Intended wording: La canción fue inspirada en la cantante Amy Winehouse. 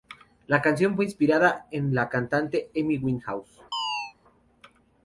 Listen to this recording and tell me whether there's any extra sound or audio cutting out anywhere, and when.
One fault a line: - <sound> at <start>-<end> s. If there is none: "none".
- chirp at 3.7-4.1 s